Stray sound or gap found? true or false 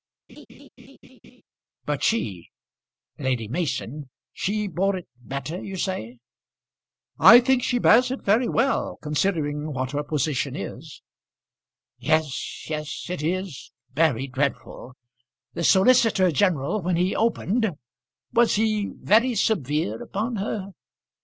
true